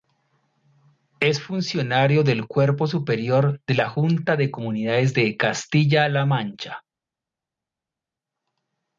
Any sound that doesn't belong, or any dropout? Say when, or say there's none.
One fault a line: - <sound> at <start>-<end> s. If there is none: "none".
none